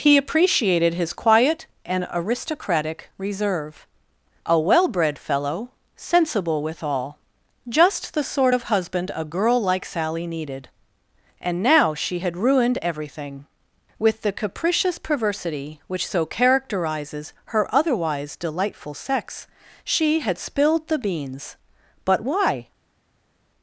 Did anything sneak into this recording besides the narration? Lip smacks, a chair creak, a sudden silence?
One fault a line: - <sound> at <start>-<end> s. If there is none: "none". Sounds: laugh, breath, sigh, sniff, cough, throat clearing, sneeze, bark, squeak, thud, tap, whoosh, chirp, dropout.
none